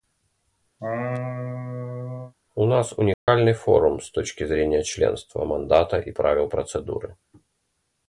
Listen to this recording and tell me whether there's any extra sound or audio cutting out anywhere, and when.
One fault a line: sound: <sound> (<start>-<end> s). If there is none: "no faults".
sound: laugh (0.8-2.3 s)
sound: dropout (3.1-3.3 s)